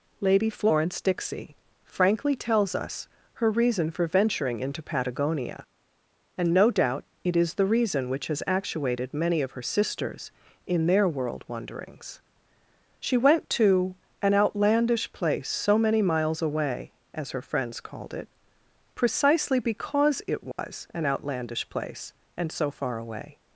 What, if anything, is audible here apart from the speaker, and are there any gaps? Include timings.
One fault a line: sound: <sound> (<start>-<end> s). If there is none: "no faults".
sound: dropout (20.5-20.6 s)